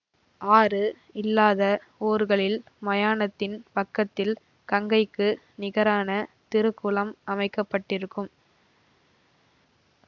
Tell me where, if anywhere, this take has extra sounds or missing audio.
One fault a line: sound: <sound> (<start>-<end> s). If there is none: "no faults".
no faults